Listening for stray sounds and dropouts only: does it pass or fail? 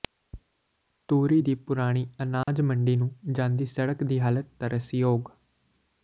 fail